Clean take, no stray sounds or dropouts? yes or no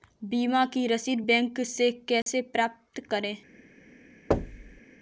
no